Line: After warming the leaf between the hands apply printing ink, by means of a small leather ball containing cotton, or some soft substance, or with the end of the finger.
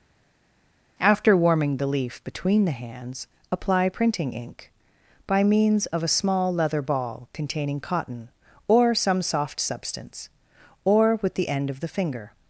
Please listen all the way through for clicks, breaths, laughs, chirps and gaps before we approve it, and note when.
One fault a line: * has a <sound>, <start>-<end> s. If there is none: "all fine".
all fine